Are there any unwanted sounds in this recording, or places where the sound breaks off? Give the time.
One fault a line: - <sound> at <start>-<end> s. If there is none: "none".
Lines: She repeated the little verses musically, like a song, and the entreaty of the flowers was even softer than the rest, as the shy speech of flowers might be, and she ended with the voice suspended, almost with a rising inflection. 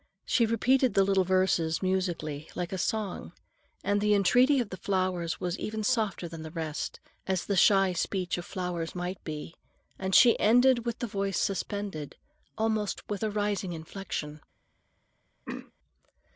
- throat clearing at 15.4-15.7 s